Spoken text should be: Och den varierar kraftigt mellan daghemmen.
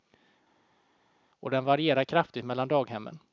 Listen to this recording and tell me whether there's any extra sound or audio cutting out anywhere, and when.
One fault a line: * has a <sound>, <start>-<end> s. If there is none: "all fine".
all fine